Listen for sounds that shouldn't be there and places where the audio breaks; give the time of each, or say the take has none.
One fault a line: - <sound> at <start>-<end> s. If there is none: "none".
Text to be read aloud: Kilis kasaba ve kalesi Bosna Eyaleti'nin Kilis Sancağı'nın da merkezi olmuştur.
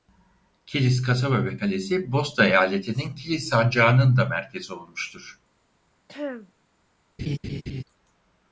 - throat clearing at 6.1-6.5 s
- laugh at 7.2-7.8 s